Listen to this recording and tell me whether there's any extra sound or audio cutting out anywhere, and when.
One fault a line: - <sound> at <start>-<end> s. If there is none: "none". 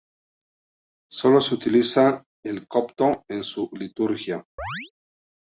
- chirp at 4.6-4.9 s